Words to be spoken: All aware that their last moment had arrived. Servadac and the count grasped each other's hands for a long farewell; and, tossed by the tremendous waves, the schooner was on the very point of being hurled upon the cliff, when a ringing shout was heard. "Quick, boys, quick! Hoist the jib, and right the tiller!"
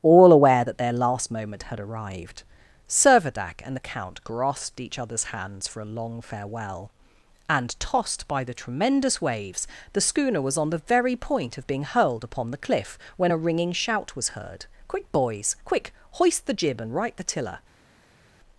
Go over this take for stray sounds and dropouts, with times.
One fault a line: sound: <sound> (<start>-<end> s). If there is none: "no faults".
no faults